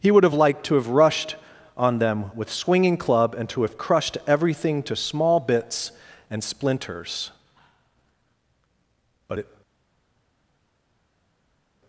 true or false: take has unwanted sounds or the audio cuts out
false